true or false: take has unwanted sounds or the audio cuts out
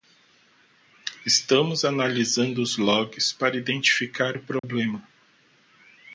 true